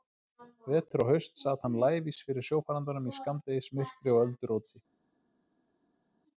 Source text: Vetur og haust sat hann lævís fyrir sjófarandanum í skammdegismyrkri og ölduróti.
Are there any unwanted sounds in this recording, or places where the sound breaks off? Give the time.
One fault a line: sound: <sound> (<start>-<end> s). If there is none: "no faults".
no faults